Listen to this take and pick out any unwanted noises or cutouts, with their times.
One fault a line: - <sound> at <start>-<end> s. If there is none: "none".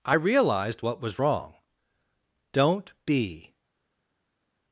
none